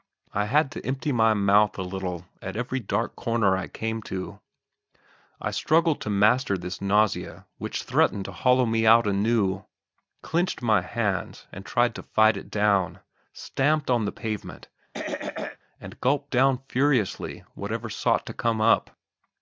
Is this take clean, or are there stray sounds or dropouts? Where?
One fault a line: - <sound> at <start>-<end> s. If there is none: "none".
- throat clearing at 14.9-15.6 s